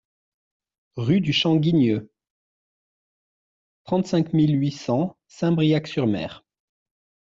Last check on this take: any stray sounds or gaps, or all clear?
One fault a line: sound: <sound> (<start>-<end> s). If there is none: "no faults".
no faults